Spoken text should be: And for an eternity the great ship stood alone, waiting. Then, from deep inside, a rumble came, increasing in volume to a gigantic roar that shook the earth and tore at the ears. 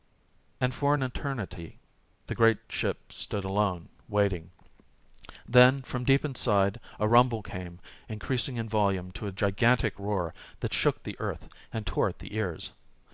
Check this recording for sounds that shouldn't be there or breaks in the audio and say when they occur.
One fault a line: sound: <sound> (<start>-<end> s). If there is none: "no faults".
no faults